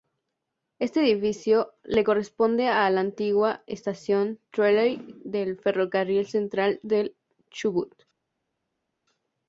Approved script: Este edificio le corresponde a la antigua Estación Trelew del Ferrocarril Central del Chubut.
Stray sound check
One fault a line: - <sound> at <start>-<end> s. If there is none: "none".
none